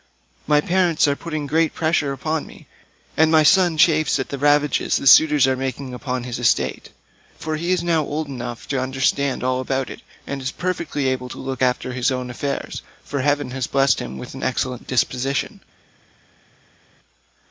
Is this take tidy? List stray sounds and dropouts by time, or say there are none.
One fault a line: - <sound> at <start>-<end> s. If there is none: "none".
none